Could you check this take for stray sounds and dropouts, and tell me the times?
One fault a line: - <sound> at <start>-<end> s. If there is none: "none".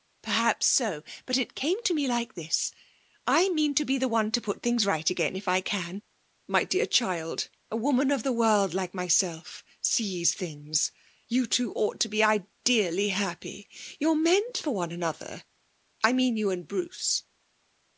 none